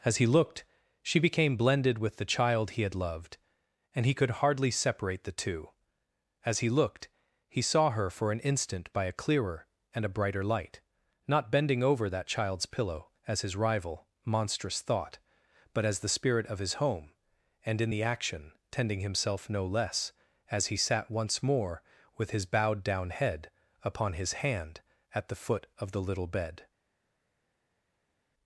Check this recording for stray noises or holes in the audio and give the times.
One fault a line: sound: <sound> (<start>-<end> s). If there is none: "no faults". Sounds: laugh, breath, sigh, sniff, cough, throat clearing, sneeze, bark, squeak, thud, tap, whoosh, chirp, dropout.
no faults